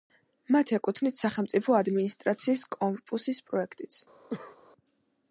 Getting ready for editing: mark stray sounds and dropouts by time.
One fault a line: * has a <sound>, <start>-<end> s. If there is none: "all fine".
* has a cough, 4.3-4.6 s